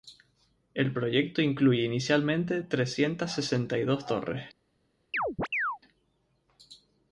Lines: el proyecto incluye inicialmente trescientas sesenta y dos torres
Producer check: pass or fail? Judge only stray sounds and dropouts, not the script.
fail